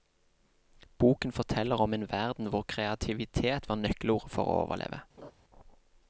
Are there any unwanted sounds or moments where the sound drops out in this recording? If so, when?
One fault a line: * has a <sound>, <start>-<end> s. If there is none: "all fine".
* has a laugh, 5.2-5.3 s